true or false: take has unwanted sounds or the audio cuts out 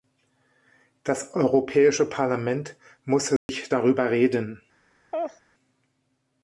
true